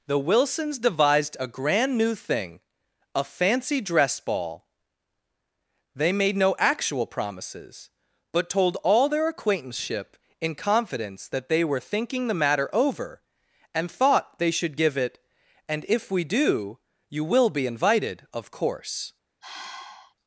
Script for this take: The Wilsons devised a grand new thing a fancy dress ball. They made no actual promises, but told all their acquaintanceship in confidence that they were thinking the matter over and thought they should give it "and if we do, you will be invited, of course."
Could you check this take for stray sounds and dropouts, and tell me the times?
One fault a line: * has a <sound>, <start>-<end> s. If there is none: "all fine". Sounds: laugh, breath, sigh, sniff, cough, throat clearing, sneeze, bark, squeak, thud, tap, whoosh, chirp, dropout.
* has a sigh, 19.4-20.1 s